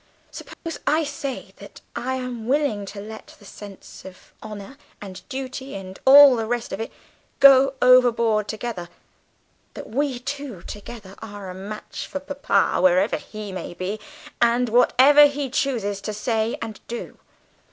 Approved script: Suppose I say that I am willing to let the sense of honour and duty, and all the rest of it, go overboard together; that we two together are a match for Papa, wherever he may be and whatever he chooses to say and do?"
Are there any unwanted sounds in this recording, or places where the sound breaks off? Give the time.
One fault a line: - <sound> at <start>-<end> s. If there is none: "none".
- dropout at 0.5-0.7 s